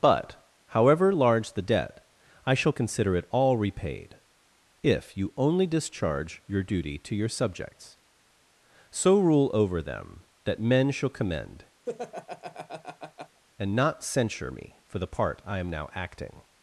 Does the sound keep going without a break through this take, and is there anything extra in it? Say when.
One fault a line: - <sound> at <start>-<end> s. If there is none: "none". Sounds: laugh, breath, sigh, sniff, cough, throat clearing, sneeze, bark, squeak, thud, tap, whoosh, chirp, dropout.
- laugh at 11.9-13.4 s